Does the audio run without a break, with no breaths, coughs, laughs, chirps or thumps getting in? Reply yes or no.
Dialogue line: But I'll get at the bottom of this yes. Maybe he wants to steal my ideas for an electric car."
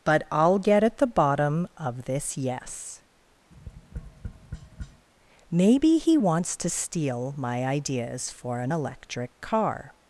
no